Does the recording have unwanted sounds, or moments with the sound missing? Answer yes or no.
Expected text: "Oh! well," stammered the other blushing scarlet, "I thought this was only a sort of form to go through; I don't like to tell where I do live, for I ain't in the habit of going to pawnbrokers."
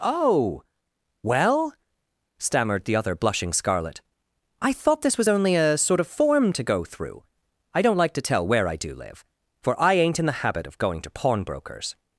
no